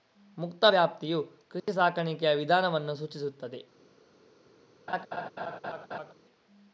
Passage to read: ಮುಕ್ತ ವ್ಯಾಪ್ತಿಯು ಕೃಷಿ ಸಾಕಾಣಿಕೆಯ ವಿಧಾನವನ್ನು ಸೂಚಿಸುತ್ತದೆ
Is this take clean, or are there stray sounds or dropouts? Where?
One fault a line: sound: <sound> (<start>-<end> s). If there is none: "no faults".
sound: dropout (1.6-1.7 s)
sound: laugh (4.9-6.1 s)